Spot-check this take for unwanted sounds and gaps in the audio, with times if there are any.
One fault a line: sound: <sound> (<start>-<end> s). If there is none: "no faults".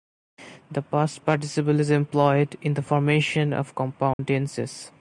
sound: dropout (4.1-4.2 s)